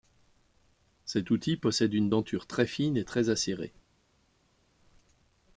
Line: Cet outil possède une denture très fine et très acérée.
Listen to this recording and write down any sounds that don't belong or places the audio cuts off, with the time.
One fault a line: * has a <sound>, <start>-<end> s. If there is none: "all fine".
all fine